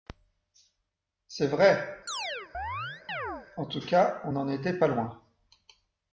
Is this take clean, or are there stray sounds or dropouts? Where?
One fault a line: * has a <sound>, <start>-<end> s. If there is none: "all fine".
* has a chirp, 2.1-3.5 s